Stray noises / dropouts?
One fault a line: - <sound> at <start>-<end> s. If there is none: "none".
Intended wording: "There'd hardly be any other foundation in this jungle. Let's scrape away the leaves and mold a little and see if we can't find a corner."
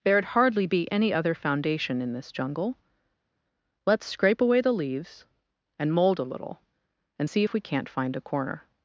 none